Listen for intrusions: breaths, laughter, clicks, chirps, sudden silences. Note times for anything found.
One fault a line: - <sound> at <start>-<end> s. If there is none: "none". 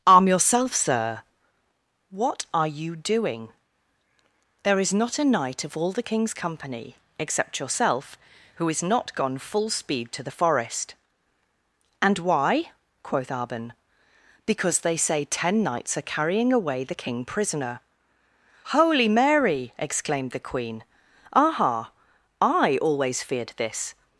none